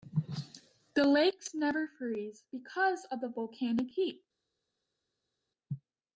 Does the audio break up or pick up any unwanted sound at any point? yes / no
no